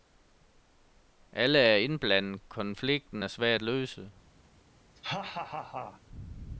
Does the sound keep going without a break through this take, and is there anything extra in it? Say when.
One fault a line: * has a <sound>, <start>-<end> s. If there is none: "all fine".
* has a laugh, 5.0-6.0 s